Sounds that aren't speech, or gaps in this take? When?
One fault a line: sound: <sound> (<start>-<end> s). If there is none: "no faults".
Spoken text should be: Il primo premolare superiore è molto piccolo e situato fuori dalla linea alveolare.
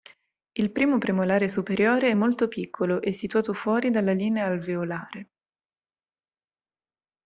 no faults